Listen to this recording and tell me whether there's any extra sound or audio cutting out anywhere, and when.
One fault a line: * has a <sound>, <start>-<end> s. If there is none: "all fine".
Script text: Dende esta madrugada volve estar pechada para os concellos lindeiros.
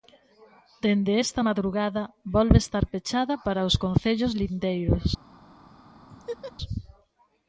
* has a laugh, 6.1-6.5 s